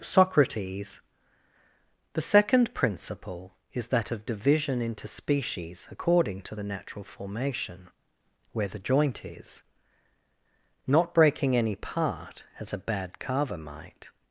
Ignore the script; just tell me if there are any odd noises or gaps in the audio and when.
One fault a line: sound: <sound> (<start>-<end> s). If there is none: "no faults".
no faults